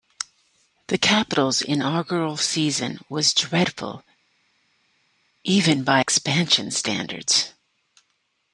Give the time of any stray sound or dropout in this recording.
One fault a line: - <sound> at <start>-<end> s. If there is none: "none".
none